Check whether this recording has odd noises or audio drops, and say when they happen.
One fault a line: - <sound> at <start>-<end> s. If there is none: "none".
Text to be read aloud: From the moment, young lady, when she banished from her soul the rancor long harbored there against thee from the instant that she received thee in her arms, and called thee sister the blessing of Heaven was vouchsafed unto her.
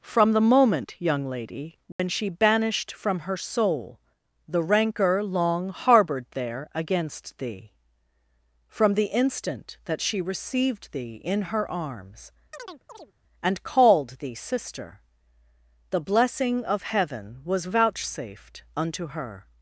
- dropout at 1.9-2.0 s
- chirp at 12.5-13.1 s